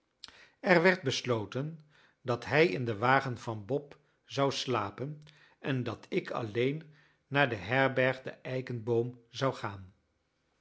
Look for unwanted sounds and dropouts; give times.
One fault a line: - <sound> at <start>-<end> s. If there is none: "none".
none